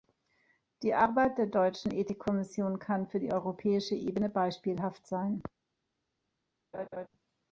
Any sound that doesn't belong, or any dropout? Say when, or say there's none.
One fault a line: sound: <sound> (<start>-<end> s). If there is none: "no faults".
sound: laugh (6.7-7.1 s)